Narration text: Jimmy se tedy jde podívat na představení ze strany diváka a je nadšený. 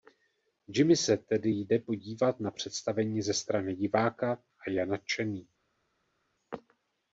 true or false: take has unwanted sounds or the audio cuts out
false